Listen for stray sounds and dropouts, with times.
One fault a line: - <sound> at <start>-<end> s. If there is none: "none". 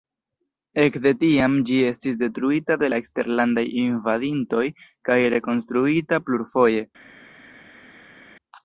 none